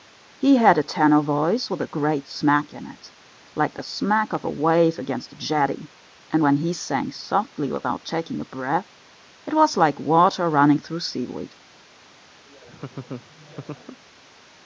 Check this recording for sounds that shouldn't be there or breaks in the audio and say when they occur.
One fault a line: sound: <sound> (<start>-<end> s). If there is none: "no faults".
sound: laugh (12.5-14.0 s)